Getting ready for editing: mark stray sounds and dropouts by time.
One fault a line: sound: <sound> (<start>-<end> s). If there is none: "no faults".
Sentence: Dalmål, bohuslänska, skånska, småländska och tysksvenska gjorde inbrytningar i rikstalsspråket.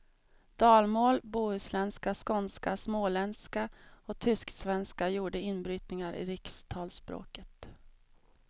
no faults